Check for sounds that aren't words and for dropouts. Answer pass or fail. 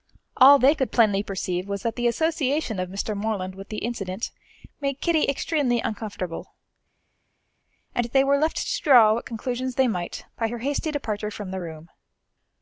pass